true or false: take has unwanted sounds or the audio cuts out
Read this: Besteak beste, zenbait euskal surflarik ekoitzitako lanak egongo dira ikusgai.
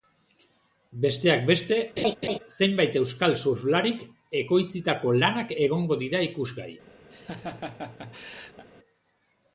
true